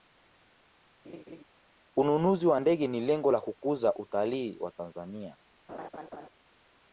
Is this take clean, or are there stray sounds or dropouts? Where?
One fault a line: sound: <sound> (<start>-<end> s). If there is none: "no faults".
sound: laugh (1.0-1.4 s)
sound: laugh (5.7-6.3 s)